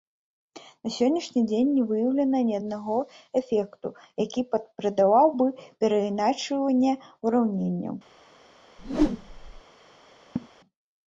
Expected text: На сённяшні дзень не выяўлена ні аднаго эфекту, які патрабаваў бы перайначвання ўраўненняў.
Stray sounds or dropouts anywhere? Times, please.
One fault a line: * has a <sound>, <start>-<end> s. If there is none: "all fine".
* has a whoosh, 8.8-9.6 s
* has a laugh, 10.4-10.5 s